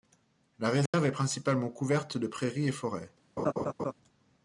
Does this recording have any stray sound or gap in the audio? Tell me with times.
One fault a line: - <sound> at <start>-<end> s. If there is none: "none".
- dropout at 0.9-0.9 s
- laugh at 3.4-3.9 s